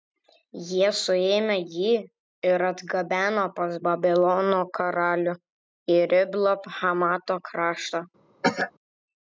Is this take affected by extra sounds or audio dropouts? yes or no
yes